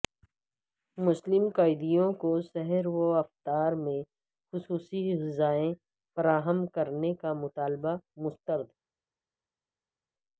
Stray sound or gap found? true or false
false